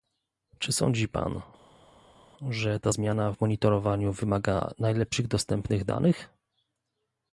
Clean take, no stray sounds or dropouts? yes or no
yes